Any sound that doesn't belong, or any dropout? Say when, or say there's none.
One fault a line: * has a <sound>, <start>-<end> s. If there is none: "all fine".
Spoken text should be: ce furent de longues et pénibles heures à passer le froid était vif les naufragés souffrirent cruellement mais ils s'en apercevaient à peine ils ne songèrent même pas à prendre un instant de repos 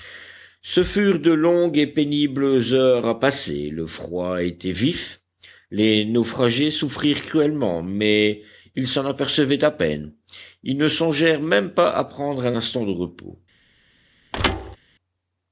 * has a thud, 14.3-14.8 s